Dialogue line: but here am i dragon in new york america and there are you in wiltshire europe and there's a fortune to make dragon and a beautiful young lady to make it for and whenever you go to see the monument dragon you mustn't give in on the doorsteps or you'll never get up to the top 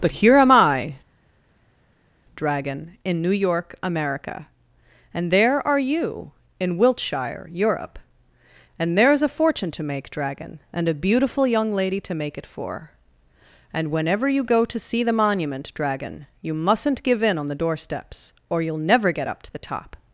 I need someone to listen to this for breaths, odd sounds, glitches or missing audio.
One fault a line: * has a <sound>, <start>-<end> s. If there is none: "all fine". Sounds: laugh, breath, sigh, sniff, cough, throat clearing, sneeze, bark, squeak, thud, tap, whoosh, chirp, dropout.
all fine